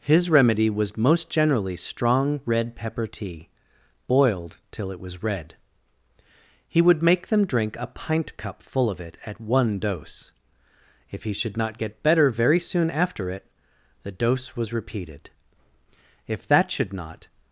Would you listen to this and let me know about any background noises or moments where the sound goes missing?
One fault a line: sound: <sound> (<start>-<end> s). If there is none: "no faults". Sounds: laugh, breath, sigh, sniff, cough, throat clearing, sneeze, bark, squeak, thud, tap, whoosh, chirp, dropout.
no faults